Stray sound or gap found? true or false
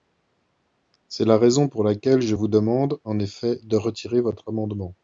false